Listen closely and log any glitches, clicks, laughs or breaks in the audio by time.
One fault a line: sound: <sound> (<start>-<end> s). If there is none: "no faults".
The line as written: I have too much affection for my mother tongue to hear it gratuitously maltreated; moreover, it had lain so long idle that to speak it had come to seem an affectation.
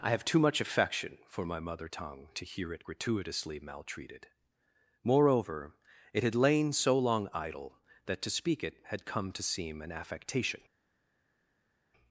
no faults